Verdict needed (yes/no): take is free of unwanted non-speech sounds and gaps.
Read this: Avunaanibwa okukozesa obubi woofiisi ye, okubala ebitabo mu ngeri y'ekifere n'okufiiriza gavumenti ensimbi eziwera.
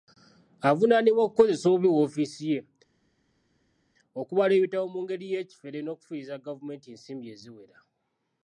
yes